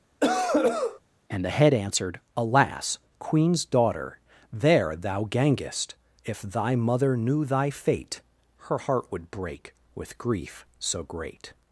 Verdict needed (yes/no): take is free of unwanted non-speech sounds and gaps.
no